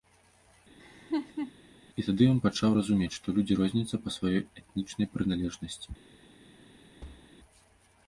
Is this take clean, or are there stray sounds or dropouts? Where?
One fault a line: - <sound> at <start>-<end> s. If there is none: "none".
- laugh at 0.8-1.5 s
- thud at 7.0-7.3 s